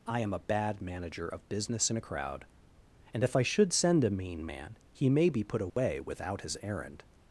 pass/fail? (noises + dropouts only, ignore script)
fail